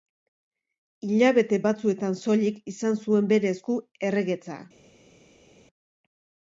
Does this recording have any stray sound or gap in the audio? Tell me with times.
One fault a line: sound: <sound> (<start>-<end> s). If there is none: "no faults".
no faults